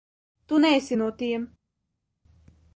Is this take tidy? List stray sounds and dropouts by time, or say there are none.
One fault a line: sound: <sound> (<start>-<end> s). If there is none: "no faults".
no faults